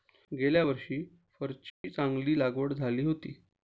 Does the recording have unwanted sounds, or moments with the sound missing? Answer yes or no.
yes